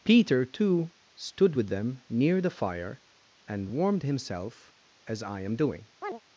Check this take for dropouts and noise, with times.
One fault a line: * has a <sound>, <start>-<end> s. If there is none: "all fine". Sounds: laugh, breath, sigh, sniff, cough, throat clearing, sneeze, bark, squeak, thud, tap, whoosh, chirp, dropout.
* has a chirp, 6.0-6.2 s